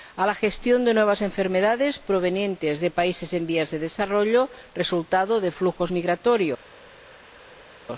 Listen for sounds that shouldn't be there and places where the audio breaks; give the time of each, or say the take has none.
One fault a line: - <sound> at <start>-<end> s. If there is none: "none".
none